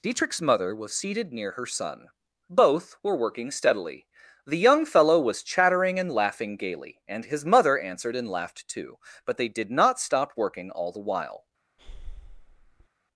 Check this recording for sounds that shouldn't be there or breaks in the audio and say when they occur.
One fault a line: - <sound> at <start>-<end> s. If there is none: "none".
- breath at 11.8-12.9 s